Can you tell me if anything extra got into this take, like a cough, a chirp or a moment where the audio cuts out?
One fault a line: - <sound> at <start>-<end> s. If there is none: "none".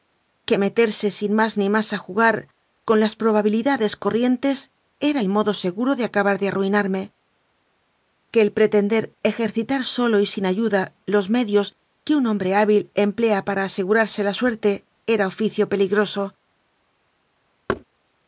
- thud at 17.7-17.8 s